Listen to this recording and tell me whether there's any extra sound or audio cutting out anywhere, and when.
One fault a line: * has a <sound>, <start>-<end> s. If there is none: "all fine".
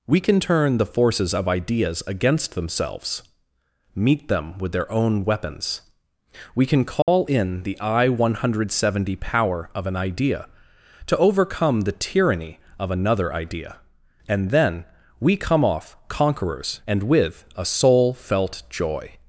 * has a dropout, 7.0-7.1 s